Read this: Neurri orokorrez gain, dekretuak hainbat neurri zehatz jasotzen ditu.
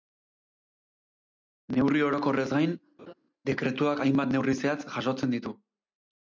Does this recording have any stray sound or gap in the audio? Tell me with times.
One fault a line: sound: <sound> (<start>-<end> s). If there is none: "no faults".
sound: laugh (3.0-3.1 s)